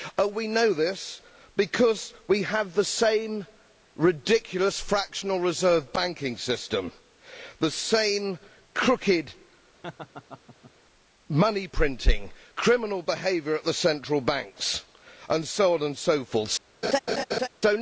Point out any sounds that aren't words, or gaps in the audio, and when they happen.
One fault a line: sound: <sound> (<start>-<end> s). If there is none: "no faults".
sound: laugh (9.8-10.7 s)
sound: laugh (16.8-17.5 s)